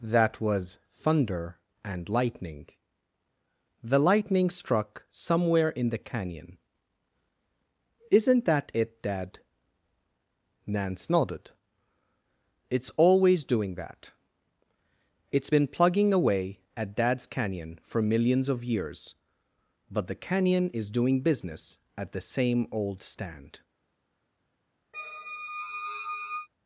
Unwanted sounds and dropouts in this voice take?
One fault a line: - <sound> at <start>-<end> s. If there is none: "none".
- squeak at 24.9-26.5 s